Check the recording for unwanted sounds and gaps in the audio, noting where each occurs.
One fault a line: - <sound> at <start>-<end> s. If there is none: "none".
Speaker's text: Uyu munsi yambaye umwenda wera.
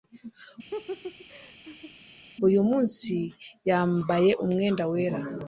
- laugh at 0.7-1.9 s